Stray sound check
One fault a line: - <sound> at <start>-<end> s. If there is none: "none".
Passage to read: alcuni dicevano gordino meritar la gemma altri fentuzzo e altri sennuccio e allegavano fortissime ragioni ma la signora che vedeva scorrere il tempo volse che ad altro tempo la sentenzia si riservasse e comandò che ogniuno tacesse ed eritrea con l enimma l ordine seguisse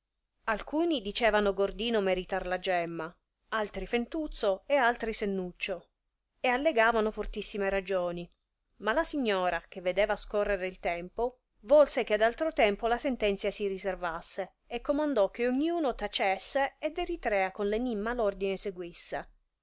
none